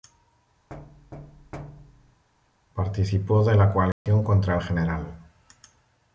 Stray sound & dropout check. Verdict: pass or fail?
fail